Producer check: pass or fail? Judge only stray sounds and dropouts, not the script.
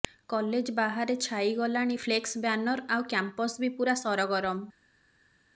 pass